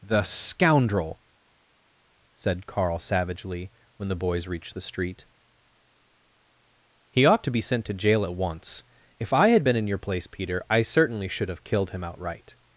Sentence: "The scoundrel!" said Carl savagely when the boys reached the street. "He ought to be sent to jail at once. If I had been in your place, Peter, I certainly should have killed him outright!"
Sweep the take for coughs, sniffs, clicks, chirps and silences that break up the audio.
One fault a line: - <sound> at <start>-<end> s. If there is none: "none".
none